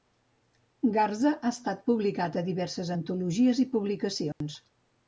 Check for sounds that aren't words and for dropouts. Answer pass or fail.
fail